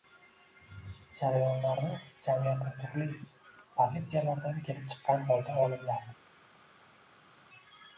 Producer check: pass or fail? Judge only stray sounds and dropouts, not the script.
pass